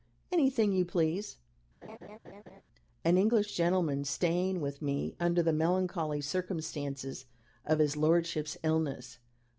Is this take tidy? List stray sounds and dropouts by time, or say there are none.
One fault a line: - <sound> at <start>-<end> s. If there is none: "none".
- laugh at 1.8-2.6 s